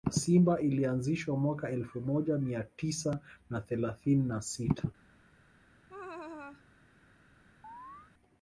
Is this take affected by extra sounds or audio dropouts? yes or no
yes